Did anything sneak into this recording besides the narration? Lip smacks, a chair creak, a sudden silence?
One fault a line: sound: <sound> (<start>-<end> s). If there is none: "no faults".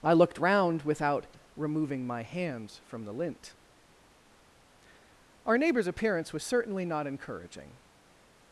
no faults